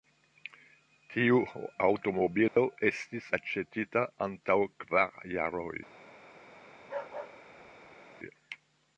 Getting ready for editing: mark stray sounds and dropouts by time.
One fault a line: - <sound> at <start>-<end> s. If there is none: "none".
- dropout at 2.5-2.6 s
- bark at 6.8-8.2 s